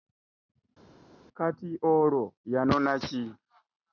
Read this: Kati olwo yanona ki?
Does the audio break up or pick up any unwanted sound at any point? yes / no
no